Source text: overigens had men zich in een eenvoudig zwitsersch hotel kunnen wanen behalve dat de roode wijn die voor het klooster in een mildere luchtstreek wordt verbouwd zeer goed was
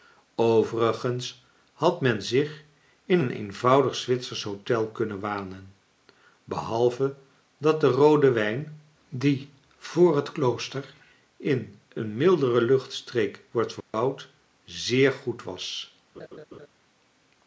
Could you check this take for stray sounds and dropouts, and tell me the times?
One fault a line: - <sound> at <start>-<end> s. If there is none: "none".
- dropout at 13.8-13.9 s
- laugh at 16.1-16.7 s